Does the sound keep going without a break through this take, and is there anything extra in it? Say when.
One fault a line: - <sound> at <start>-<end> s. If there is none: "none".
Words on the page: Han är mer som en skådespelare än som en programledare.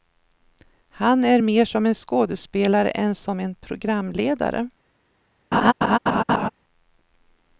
- laugh at 5.5-6.5 s